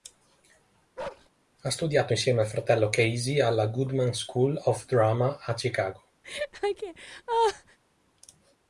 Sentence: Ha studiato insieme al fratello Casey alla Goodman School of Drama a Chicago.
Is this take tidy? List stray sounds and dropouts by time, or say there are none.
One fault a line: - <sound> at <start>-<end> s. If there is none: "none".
- bark at 1.0-1.3 s
- laugh at 6.2-7.8 s